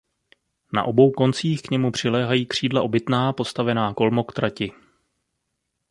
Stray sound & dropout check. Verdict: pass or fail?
pass